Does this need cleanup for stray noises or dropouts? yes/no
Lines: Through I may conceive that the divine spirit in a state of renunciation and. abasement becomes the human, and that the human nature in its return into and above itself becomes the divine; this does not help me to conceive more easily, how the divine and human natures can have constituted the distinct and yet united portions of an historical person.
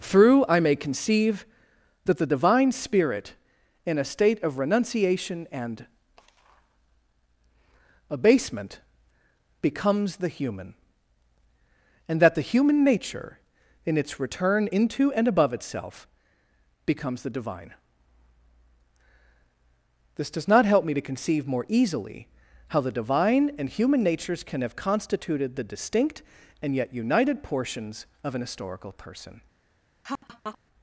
yes